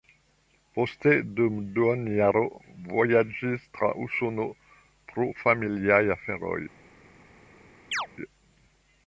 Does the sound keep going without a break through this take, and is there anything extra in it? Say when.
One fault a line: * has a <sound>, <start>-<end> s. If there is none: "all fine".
* has a chirp, 7.9-8.1 s